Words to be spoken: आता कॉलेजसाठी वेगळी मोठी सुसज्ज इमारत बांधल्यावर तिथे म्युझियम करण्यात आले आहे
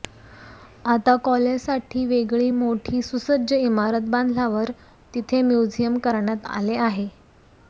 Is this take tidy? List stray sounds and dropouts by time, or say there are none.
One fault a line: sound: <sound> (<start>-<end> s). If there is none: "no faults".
no faults